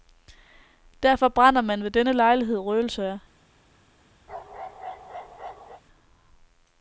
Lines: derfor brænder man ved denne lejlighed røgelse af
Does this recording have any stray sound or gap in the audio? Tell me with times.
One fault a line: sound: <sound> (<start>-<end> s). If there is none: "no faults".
sound: bark (4.3-5.8 s)